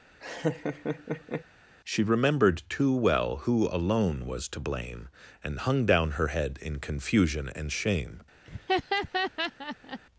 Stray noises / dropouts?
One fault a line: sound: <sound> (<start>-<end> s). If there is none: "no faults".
sound: laugh (0.2-1.4 s)
sound: laugh (8.4-10.0 s)